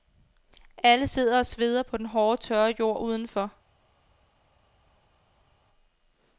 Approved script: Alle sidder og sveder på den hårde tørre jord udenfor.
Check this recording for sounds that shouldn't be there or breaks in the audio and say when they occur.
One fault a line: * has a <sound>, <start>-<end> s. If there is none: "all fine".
all fine